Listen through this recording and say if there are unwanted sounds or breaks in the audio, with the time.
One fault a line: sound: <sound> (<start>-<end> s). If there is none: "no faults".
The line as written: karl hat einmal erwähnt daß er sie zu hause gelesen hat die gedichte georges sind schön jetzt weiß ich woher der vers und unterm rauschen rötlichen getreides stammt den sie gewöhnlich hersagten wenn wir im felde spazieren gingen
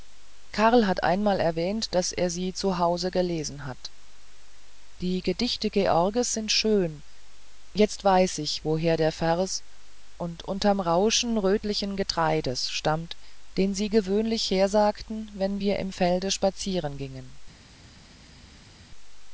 no faults